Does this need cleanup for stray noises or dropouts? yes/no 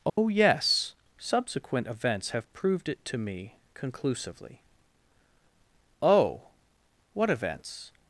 yes